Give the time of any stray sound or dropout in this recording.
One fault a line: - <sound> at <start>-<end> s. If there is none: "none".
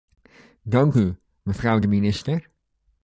none